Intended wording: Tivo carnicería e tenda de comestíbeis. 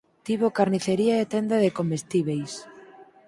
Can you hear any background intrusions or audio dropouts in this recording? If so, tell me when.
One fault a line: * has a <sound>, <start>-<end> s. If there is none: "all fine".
all fine